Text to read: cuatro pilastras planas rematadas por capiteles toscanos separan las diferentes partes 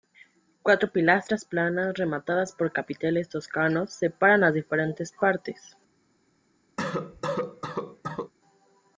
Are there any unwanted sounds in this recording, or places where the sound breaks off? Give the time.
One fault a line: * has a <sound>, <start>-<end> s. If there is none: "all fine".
* has a cough, 6.8-8.3 s